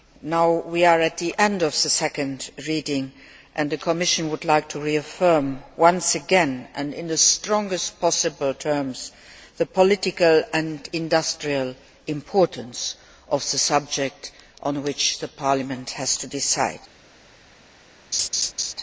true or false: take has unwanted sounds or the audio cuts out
true